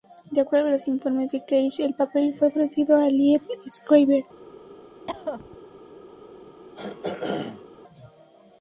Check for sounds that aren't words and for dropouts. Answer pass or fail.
fail